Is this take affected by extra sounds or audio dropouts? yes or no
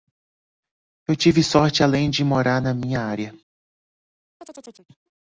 yes